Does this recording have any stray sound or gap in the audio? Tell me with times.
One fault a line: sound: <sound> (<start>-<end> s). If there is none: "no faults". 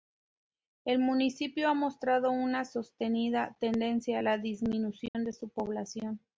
sound: dropout (5.1-5.1 s)